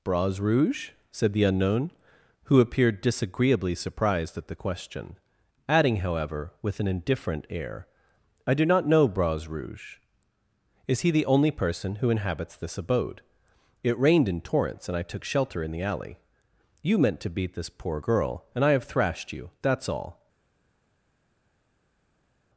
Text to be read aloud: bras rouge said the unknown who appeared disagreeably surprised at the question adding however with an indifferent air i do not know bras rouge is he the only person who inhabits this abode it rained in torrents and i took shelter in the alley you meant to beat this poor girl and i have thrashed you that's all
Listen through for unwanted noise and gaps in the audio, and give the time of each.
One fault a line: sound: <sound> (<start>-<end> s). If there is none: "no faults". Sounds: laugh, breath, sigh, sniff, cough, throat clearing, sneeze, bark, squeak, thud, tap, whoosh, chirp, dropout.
no faults